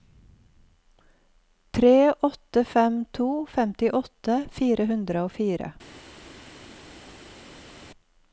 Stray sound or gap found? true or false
false